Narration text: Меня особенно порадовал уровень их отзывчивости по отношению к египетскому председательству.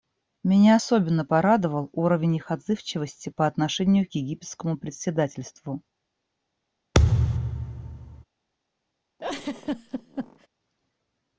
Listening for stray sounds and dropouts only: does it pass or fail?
fail